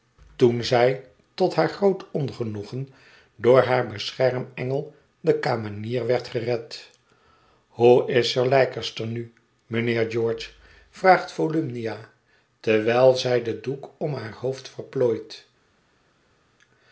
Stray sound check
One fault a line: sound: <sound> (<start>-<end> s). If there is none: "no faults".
no faults